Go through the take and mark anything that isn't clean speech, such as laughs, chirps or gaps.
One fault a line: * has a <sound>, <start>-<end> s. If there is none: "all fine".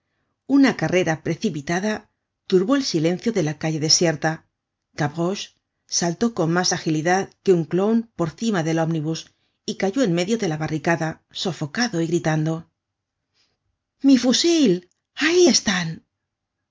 all fine